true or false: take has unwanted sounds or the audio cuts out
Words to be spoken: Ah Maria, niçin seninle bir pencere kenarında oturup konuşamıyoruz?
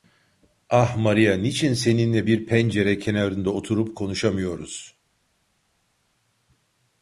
false